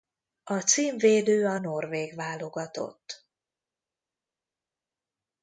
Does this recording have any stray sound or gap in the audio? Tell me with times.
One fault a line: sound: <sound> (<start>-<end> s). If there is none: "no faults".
no faults